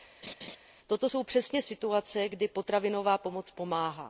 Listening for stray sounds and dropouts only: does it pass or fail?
fail